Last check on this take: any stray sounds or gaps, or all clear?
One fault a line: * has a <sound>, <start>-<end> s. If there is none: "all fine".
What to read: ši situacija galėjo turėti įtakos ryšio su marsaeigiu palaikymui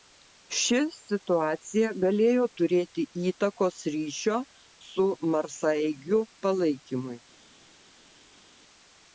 all fine